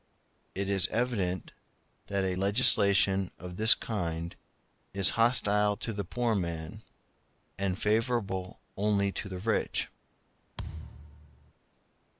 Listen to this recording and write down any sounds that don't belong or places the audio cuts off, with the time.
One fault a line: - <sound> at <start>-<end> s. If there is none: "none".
- thud at 10.6-11.5 s